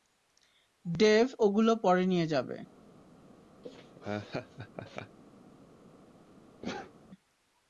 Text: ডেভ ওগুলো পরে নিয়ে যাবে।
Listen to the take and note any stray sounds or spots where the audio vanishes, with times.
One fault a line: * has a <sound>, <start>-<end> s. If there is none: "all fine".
* has a laugh, 3.6-5.2 s
* has a sneeze, 6.6-6.9 s